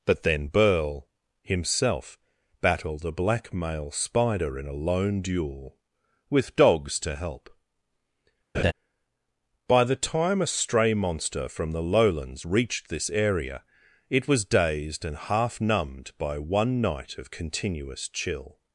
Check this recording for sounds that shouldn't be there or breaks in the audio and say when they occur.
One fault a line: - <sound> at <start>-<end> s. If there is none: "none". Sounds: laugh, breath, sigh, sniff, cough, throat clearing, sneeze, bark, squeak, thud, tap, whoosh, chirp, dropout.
- laugh at 8.5-8.7 s